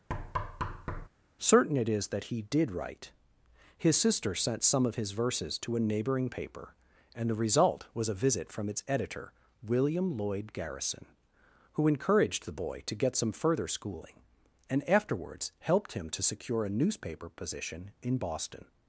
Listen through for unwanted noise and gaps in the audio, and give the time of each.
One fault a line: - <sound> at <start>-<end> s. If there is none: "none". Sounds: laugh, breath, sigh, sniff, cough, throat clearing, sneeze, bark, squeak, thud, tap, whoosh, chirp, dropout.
- thud at 0.1-1.1 s